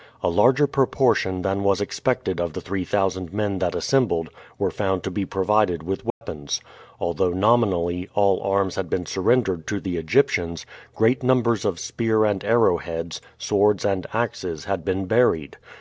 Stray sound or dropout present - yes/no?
yes